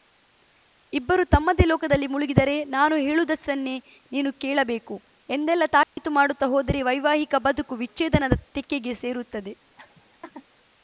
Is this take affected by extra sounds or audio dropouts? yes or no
yes